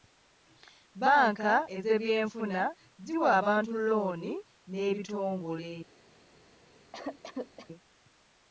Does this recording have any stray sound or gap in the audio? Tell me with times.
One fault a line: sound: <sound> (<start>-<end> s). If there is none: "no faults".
sound: cough (6.9-7.7 s)